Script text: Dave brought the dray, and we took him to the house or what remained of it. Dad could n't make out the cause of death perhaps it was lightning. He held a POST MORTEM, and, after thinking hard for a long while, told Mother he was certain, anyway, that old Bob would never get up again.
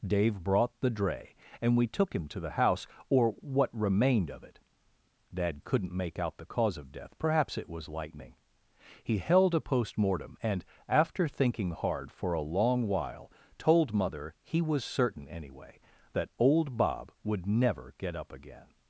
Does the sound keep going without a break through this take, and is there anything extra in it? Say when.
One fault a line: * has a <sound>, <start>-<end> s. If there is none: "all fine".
all fine